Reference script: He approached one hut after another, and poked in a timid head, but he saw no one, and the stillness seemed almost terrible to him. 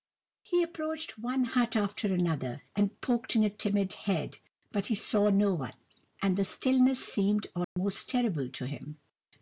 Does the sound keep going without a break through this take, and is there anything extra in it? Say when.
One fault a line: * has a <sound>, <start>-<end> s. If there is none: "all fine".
* has a dropout, 7.6-7.8 s